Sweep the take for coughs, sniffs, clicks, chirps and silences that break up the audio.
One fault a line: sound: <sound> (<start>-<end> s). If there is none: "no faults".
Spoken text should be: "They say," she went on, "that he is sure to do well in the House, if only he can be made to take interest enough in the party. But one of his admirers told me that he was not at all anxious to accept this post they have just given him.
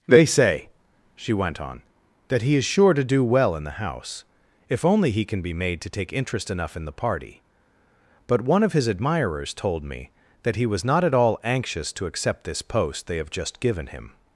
no faults